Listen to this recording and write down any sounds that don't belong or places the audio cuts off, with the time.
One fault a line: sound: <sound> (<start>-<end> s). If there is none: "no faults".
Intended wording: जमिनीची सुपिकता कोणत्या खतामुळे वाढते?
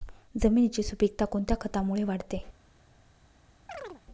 sound: chirp (3.7-4.0 s)